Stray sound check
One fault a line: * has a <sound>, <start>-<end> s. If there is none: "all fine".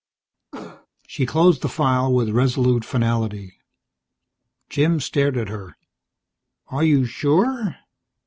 * has a cough, 0.5-0.9 s